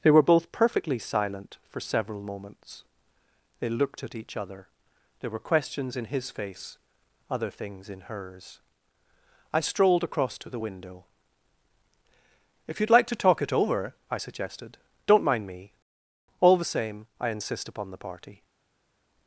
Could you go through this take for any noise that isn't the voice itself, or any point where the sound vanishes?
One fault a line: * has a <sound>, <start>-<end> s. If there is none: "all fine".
all fine